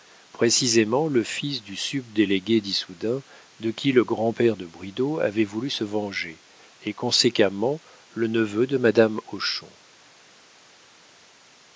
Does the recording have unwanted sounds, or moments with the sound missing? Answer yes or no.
no